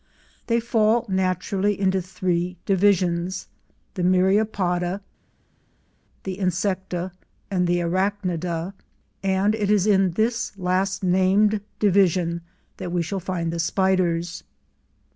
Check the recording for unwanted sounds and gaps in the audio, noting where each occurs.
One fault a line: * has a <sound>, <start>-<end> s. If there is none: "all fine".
all fine